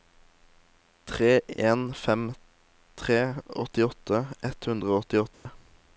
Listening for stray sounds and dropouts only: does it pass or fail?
fail